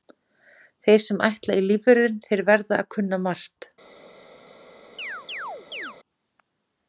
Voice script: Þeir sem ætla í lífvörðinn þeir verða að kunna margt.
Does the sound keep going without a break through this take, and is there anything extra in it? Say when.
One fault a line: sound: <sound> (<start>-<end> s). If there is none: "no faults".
sound: chirp (5.0-6.0 s)